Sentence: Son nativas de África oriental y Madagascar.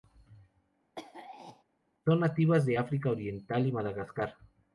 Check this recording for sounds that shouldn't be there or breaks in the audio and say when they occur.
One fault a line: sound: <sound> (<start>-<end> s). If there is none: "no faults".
sound: throat clearing (1.0-1.6 s)